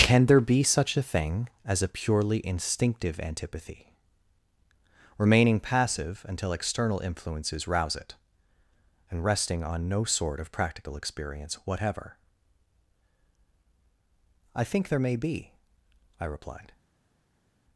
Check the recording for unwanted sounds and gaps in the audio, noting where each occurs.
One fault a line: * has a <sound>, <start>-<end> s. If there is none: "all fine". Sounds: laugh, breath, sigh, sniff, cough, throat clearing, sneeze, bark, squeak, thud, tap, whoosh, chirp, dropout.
all fine